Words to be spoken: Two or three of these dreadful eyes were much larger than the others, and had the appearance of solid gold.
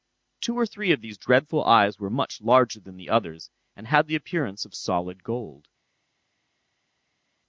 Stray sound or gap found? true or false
false